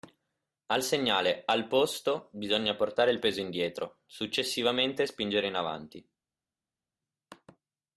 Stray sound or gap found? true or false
false